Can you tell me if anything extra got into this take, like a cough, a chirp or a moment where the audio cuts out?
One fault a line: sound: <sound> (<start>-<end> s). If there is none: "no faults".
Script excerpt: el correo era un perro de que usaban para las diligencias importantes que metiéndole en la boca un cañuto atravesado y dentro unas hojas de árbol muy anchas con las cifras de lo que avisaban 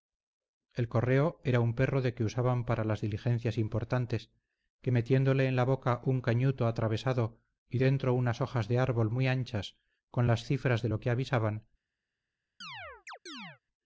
sound: chirp (12.6-13.6 s)